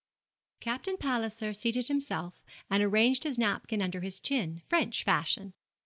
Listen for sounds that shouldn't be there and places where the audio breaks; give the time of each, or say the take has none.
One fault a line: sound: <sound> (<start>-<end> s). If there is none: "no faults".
no faults